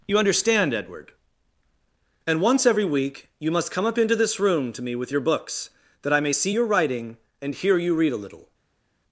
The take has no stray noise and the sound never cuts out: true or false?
true